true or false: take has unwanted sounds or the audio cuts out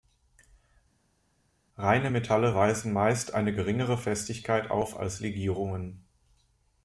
false